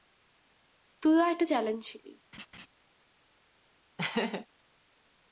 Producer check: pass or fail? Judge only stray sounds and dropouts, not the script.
fail